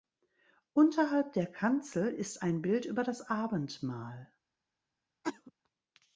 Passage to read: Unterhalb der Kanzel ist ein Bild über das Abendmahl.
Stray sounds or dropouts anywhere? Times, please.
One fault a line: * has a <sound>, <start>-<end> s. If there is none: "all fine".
* has a cough, 5.2-5.5 s